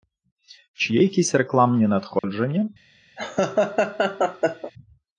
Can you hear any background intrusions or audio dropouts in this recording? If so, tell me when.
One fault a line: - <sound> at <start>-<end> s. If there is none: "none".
- dropout at 2.2-2.2 s
- laugh at 3.2-4.7 s